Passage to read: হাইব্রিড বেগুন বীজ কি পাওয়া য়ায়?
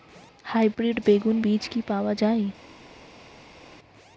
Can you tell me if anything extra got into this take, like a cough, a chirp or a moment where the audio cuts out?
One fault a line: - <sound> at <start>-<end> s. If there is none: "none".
none